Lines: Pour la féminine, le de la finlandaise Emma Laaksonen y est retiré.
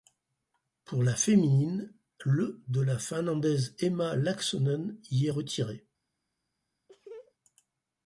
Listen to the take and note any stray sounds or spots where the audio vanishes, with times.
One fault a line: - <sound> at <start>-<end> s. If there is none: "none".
- laugh at 6.9-7.3 s